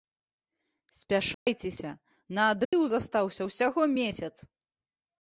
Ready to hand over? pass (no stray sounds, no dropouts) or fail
fail